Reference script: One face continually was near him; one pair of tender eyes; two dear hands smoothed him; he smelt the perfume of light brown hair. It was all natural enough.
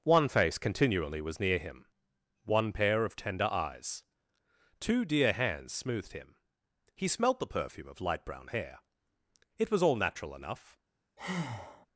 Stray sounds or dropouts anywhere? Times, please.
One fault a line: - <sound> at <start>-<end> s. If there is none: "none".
- breath at 11.2-11.9 s